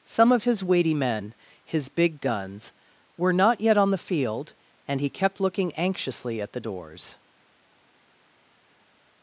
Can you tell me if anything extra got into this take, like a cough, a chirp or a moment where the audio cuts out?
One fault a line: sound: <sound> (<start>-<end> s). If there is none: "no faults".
no faults